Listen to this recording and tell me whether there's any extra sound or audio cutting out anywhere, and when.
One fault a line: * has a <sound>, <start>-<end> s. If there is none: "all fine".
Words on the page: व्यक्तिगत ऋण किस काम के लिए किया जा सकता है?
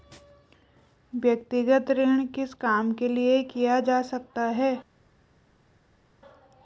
all fine